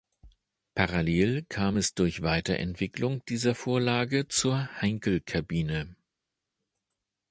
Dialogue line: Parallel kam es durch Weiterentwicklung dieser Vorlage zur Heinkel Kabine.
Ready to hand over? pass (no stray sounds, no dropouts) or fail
pass